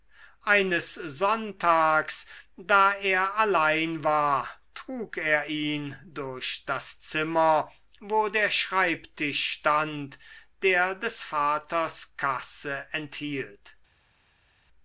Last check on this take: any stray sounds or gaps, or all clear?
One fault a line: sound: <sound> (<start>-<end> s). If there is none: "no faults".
no faults